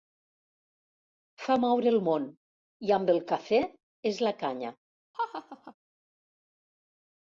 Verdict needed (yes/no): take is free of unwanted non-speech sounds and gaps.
no